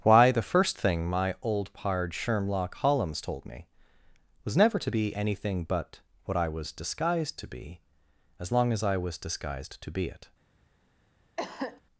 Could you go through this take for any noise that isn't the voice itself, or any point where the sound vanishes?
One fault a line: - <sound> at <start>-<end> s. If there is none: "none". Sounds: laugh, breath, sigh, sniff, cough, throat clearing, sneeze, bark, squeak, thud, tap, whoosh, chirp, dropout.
- cough at 11.4-11.8 s